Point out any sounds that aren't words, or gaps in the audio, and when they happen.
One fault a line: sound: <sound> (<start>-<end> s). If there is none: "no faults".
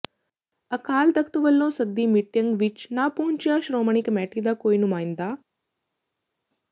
no faults